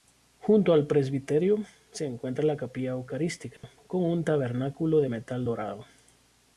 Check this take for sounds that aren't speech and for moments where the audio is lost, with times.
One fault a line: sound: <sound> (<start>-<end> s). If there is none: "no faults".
sound: dropout (3.6-3.6 s)